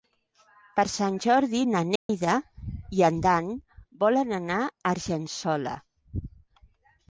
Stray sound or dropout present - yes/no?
yes